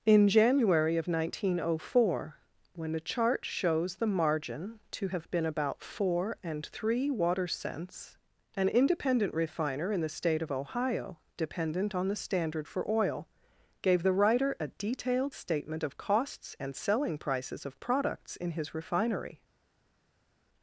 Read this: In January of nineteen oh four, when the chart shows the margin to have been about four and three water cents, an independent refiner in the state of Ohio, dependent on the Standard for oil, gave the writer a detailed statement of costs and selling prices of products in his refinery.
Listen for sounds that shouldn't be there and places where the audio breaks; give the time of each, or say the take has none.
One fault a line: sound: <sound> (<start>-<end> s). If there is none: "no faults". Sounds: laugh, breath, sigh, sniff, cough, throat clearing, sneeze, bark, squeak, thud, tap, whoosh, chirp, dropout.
no faults